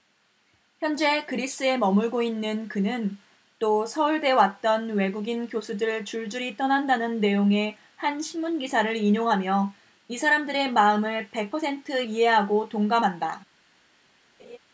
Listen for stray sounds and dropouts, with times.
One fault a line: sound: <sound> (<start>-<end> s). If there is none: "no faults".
sound: laugh (14.4-14.6 s)